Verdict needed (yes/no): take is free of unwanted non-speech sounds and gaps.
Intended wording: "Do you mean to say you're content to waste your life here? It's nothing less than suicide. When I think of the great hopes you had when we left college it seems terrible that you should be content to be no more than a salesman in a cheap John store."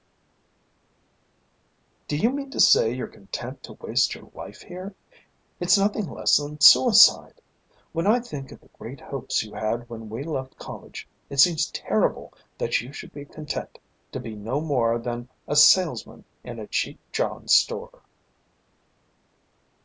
yes